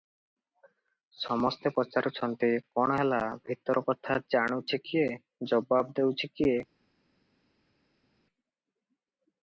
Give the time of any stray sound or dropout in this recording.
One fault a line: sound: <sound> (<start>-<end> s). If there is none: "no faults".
no faults